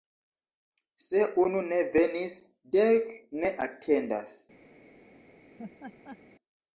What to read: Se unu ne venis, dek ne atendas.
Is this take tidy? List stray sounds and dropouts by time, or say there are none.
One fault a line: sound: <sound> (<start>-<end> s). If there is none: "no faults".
sound: laugh (5.6-6.2 s)